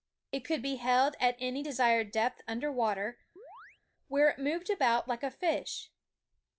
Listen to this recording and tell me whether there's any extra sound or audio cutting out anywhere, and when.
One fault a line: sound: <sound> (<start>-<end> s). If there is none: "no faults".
sound: chirp (3.4-3.8 s)